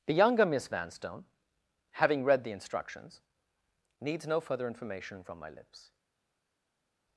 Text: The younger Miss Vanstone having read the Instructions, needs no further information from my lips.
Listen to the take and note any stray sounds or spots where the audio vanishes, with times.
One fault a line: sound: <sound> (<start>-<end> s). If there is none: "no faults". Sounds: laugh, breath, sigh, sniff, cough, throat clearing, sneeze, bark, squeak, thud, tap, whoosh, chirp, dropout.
no faults